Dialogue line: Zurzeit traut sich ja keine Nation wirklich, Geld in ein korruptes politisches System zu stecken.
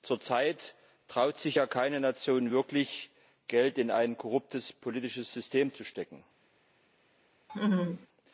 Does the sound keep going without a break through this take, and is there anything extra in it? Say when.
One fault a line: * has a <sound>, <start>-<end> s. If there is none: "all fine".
* has a laugh, 7.5-8.1 s